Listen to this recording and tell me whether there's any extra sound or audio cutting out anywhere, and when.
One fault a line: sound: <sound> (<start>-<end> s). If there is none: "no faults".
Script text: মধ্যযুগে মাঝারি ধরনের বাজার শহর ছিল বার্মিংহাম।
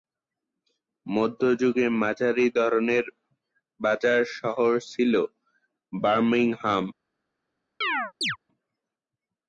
sound: chirp (7.8-8.4 s)